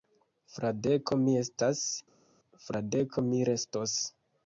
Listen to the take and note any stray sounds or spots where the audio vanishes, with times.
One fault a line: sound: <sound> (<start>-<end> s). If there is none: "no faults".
no faults